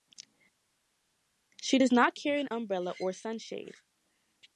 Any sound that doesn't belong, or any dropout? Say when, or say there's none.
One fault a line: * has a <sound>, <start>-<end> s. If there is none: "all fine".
all fine